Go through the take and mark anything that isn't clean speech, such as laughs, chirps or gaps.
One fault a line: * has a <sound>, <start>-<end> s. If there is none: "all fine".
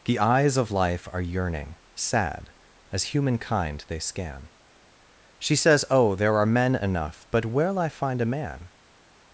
all fine